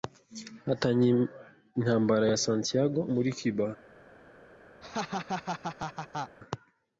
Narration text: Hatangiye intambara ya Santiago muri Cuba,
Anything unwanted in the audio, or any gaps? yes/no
yes